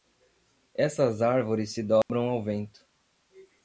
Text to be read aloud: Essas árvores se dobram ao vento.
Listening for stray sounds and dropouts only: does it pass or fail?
fail